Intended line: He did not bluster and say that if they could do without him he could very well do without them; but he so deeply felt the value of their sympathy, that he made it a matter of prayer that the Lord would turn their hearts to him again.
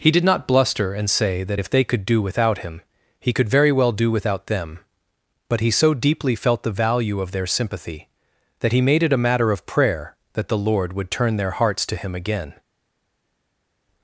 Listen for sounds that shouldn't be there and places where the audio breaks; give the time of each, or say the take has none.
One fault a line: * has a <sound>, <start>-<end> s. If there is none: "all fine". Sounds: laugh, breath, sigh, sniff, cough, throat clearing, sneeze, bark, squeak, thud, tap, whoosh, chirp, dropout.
all fine